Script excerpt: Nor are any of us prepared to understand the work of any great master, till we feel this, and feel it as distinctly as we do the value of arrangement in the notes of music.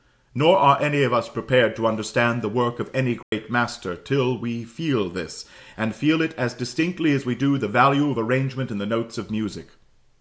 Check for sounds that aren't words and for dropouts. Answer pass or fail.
fail